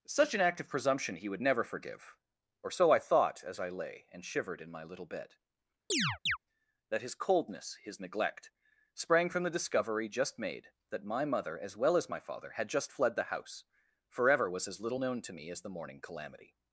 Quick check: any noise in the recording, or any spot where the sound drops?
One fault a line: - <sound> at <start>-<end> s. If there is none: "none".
- chirp at 5.9-6.4 s